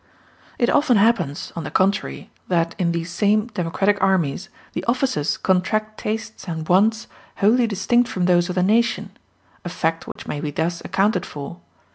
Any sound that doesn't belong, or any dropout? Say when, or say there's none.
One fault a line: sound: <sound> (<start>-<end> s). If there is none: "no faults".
sound: dropout (10.1-10.2 s)